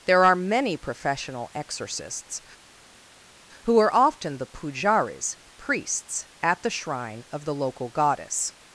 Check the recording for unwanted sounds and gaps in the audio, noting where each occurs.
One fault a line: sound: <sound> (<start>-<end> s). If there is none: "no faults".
no faults